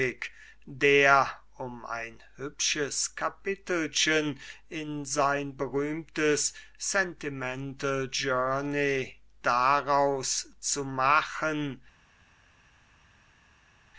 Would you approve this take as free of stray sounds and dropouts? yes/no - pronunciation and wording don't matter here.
yes